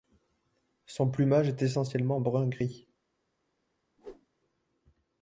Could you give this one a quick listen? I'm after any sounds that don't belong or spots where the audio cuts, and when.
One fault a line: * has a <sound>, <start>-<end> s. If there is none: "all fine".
* has a whoosh, 4.0-4.3 s